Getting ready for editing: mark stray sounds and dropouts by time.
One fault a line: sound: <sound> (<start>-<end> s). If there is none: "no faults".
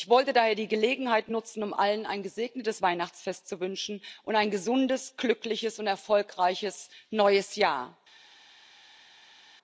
no faults